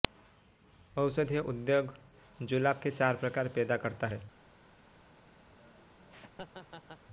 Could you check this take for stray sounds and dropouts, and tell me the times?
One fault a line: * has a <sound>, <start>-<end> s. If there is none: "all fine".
* has a laugh, 5.5-7.0 s